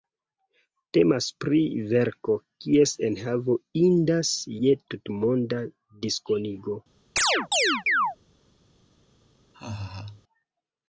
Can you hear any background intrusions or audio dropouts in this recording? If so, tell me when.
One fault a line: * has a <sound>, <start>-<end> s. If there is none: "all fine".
* has a chirp, 7.2-8.2 s
* has a laugh, 9.5-10.2 s